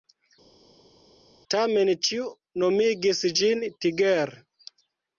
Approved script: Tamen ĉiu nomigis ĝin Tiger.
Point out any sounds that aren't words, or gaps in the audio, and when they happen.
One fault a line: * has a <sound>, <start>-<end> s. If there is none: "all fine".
all fine